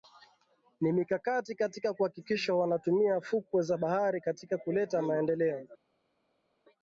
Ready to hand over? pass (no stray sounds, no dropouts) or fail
pass